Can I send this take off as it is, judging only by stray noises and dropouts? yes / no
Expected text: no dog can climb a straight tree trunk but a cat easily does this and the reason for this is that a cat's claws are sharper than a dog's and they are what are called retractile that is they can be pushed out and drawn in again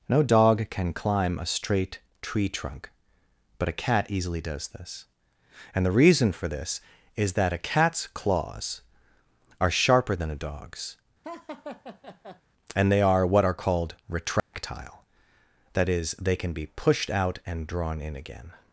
no